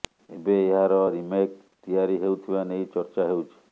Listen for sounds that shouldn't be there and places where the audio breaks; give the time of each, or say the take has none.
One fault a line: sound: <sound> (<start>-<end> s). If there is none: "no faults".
no faults